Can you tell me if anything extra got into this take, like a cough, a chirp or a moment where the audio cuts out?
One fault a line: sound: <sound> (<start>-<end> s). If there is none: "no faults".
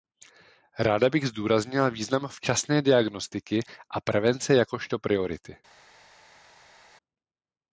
no faults